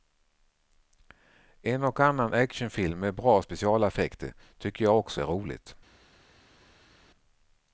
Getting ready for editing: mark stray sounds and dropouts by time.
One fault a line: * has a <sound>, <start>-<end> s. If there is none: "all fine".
all fine